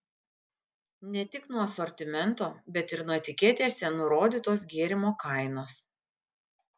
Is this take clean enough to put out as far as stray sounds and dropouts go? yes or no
yes